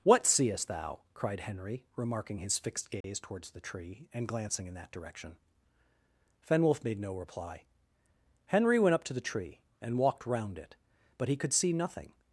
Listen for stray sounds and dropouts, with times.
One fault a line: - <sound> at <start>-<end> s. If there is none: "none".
- dropout at 3.0-3.0 s